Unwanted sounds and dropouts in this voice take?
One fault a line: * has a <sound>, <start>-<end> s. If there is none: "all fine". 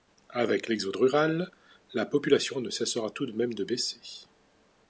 all fine